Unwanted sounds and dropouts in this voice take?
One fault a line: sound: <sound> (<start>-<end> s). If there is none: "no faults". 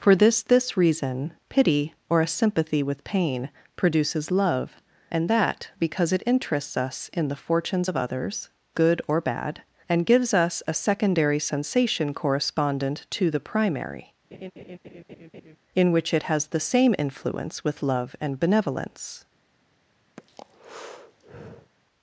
sound: laugh (14.3-15.6 s)
sound: breath (20.2-21.7 s)